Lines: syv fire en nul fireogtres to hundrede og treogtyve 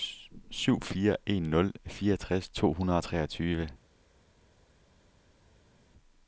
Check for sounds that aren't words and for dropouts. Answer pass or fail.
pass